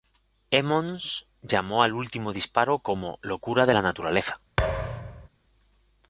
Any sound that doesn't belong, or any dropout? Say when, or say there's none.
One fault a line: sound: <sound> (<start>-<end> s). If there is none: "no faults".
sound: thud (4.6-5.3 s)